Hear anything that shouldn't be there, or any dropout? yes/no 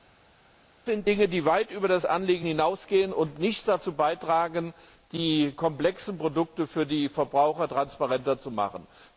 no